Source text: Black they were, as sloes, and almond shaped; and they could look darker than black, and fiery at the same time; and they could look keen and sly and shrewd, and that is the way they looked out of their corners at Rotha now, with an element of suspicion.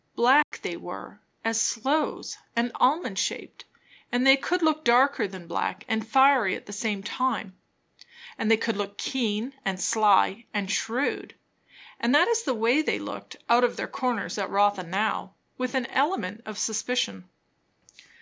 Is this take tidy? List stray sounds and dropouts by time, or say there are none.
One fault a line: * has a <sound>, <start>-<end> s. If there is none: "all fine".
* has a dropout, 0.4-0.5 s